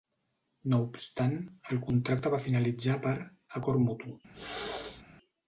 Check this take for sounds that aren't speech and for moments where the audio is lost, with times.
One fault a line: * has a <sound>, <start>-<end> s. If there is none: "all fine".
* has a throat clearing, 4.3-5.0 s